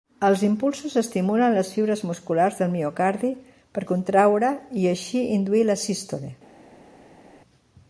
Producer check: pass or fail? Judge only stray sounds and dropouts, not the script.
pass